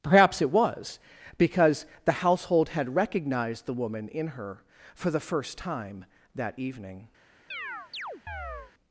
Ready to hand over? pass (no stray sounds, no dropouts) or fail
fail